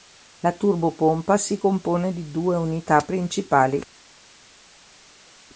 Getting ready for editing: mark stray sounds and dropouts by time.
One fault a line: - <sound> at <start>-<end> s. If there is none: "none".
none